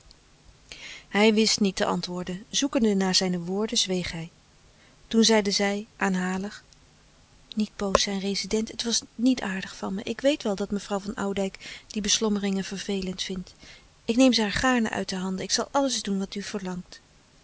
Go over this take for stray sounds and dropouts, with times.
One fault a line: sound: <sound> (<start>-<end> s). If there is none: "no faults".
no faults